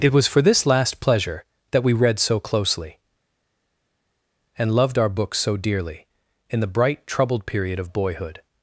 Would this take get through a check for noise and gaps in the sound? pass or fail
pass